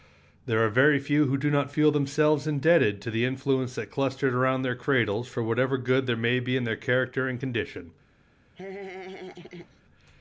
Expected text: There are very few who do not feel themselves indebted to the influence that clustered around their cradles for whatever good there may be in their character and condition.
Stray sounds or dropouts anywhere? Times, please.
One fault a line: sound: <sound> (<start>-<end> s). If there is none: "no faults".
sound: laugh (8.6-9.8 s)